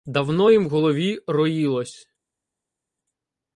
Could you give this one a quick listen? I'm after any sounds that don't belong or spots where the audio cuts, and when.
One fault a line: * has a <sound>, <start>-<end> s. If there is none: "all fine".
all fine